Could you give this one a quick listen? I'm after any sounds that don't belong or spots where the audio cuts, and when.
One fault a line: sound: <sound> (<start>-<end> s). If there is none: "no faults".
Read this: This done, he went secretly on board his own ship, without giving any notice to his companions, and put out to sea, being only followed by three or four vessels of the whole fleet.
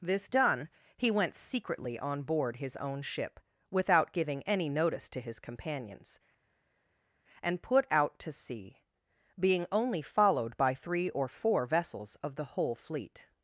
no faults